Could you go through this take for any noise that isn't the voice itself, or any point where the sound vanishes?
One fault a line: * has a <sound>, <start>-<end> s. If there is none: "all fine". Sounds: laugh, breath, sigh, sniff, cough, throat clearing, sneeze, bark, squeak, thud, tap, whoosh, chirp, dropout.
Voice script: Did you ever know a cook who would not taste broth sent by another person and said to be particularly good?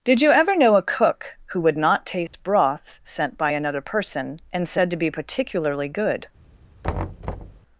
* has a dropout, 2.3-2.3 s
* has a thud, 6.8-7.6 s